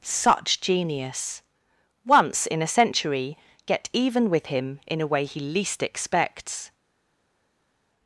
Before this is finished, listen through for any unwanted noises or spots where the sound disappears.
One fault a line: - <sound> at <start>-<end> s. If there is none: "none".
none